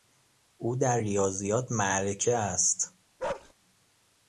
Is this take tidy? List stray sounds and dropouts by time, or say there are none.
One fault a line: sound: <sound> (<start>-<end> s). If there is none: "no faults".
sound: bark (3.2-3.5 s)